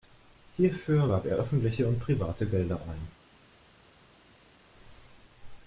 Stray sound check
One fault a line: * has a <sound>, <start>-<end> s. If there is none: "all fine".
all fine